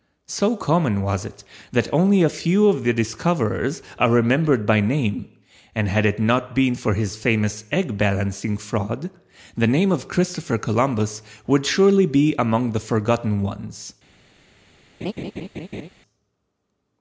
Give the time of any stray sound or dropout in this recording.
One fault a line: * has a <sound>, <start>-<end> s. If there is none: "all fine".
* has a laugh, 15.0-15.9 s